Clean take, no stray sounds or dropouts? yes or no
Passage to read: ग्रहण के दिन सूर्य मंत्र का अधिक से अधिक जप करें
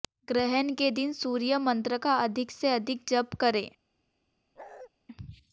no